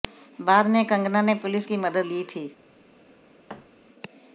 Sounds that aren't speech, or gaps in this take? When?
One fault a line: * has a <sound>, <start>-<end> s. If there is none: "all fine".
* has a thud, 3.5-3.7 s